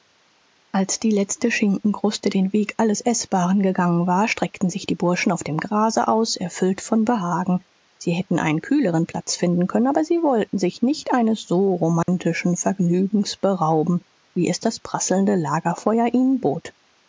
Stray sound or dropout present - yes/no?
yes